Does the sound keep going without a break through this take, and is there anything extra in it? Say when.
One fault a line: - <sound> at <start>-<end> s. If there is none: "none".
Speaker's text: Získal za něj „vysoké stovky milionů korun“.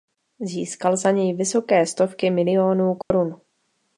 - dropout at 3.0-3.1 s